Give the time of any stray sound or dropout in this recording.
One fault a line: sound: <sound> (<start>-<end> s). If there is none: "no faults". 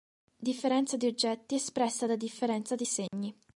sound: dropout (3.1-3.1 s)